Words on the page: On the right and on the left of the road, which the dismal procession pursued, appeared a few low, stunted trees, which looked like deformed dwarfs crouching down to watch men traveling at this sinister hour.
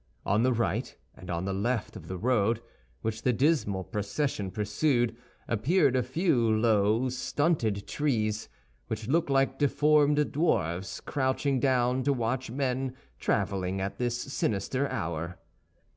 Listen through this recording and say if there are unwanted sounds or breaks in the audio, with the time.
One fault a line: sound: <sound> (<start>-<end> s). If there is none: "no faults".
no faults